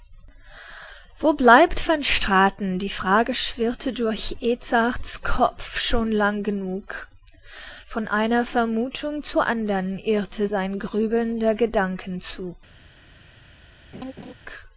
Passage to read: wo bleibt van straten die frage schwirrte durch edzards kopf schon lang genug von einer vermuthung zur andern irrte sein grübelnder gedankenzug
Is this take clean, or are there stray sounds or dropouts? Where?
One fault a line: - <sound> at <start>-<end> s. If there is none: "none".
- laugh at 13.9-14.3 s